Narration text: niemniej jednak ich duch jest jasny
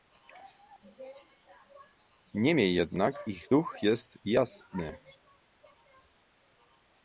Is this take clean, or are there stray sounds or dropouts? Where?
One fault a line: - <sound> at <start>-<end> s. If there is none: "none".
none